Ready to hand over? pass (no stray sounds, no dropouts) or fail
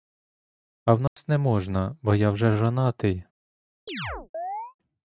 fail